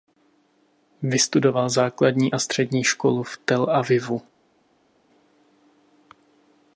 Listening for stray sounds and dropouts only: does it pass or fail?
pass